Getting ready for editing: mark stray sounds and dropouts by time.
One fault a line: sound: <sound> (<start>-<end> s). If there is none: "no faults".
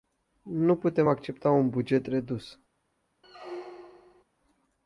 sound: squeak (3.2-4.2 s)